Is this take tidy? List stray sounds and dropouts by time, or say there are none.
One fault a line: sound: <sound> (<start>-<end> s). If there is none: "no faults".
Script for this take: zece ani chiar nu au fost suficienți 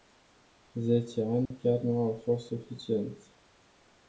sound: dropout (1.5-1.5 s)